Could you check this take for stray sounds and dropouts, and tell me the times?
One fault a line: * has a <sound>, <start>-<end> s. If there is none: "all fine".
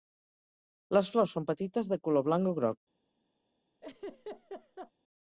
* has a laugh, 3.8-4.9 s